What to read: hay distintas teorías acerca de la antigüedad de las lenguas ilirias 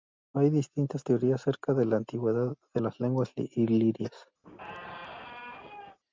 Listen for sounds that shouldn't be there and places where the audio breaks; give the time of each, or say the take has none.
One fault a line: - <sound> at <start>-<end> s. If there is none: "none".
- squeak at 4.4-6.0 s